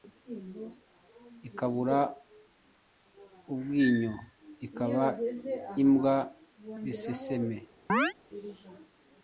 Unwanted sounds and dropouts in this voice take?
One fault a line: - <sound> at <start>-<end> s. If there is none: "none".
- chirp at 7.9-8.1 s